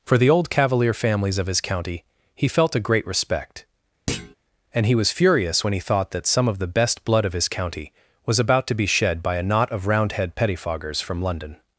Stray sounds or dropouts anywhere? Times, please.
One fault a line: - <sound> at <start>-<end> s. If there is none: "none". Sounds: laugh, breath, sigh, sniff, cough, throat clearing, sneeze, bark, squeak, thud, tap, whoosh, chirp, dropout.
- thud at 4.1-4.4 s